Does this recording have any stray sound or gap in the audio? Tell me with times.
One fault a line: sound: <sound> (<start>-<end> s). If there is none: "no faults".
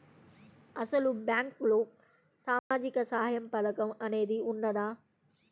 sound: dropout (2.6-2.7 s)